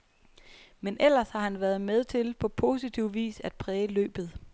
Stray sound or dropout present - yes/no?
no